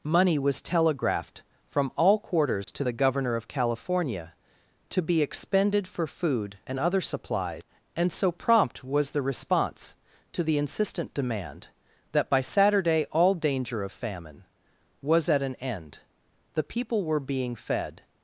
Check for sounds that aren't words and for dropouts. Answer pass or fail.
fail